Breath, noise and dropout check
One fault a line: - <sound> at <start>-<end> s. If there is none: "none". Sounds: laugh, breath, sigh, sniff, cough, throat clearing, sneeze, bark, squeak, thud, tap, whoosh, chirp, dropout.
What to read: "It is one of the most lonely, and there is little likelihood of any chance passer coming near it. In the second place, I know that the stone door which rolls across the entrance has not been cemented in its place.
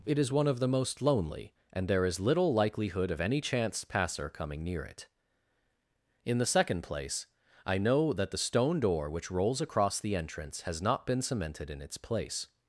none